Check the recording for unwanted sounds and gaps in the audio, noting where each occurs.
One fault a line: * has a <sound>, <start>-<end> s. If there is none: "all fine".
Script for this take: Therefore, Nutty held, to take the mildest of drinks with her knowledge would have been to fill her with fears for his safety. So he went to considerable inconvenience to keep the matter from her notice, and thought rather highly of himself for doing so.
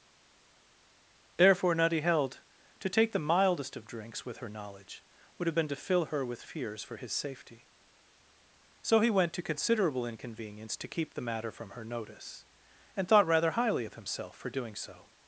all fine